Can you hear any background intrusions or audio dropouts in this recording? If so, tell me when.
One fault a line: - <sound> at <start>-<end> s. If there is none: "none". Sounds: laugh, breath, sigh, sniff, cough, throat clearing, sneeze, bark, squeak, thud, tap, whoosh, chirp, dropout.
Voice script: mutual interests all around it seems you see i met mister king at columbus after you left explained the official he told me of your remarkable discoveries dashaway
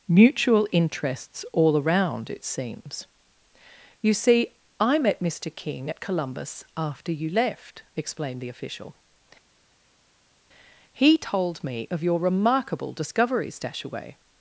none